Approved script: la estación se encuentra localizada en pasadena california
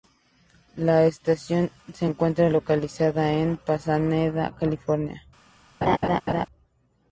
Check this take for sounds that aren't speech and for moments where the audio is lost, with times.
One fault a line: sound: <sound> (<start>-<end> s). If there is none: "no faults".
sound: laugh (5.8-6.5 s)